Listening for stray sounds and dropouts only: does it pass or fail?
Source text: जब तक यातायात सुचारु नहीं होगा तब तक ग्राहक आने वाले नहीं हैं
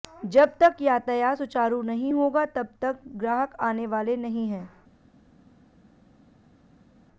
pass